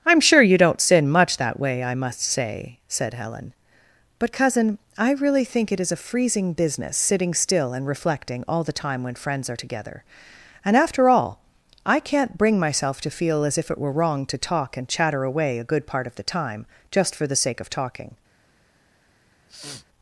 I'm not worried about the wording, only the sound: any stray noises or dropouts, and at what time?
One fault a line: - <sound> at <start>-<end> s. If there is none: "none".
- sniff at 19.5-19.9 s